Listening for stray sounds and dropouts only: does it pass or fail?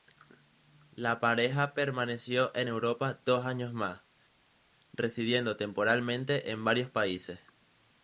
pass